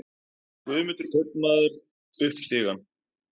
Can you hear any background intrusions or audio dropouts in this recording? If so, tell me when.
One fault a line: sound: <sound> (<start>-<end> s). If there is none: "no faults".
no faults